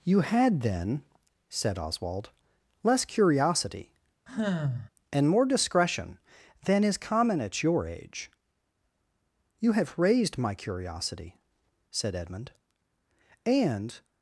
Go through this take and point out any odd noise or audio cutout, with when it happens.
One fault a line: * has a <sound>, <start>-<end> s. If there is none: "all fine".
* has a sigh, 4.3-4.9 s